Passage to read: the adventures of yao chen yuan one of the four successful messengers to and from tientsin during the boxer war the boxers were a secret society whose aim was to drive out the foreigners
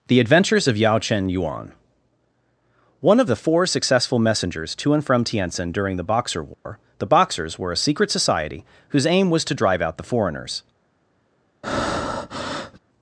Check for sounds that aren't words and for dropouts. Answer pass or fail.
fail